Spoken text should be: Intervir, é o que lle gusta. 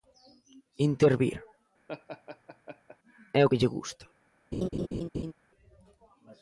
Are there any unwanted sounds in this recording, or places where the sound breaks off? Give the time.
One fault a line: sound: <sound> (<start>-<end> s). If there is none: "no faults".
sound: laugh (1.9-3.0 s)
sound: laugh (4.5-5.3 s)